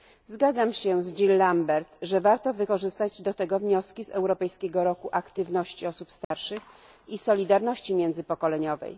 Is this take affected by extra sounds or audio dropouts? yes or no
yes